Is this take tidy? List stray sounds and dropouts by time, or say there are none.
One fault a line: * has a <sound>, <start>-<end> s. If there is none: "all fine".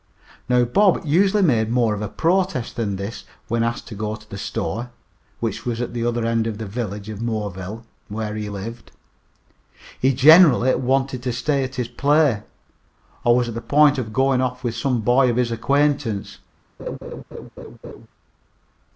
* has a laugh, 16.8-18.1 s